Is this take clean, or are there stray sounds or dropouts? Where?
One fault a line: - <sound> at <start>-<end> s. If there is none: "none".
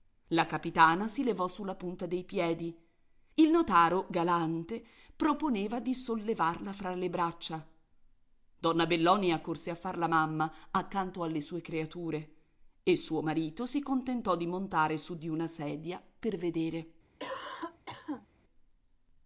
- cough at 17.2-18.3 s